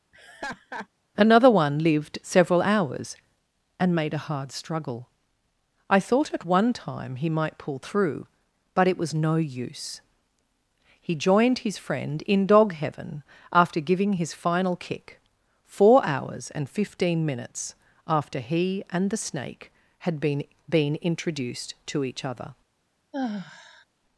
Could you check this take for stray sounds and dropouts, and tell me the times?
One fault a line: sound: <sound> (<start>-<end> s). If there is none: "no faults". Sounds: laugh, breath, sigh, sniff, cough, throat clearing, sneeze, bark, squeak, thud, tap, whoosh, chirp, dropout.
sound: laugh (0.1-0.9 s)
sound: sigh (23.1-23.8 s)